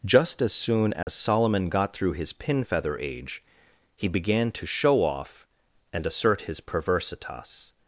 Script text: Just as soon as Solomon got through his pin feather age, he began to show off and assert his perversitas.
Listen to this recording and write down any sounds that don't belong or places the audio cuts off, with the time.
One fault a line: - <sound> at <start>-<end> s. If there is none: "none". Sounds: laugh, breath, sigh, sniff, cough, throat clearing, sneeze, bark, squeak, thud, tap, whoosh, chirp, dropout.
- dropout at 1.0-1.1 s